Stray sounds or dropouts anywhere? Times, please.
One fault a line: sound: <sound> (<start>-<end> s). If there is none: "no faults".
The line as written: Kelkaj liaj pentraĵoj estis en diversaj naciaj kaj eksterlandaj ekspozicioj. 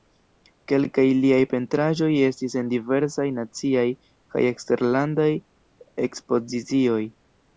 no faults